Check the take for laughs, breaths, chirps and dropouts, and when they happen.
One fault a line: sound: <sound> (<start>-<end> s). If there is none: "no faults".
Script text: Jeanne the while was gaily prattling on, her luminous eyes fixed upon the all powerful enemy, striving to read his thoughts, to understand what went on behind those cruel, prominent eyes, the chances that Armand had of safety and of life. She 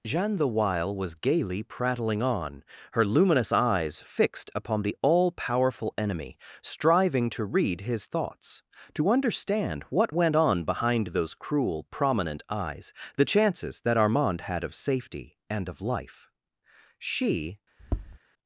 sound: tap (17.8-18.2 s)